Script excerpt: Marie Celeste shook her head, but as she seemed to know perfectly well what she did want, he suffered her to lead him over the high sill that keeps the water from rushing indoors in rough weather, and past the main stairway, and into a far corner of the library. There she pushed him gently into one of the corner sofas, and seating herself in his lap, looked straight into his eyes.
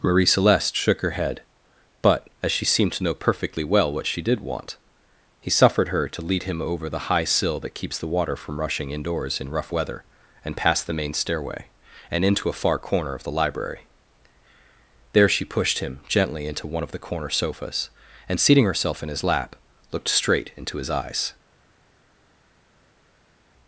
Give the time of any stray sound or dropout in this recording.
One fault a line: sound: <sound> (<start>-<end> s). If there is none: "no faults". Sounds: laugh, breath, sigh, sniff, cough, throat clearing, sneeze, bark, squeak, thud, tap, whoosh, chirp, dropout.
no faults